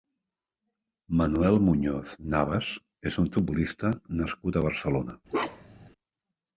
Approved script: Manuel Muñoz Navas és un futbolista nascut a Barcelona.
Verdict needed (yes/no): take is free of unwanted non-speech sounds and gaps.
no